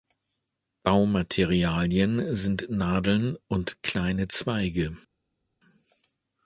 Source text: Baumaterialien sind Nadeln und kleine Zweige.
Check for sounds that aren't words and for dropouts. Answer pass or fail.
pass